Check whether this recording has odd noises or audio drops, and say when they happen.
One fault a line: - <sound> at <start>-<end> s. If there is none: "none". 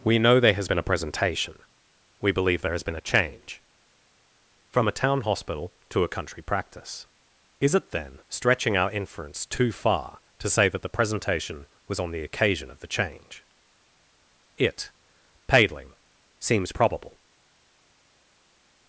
none